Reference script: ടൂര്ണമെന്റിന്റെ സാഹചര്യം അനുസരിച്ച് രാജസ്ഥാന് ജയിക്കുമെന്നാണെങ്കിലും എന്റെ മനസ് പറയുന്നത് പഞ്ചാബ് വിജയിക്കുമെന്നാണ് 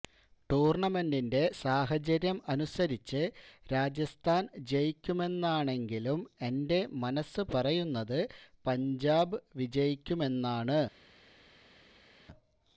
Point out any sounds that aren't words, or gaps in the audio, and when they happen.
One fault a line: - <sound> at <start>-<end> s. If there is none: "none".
none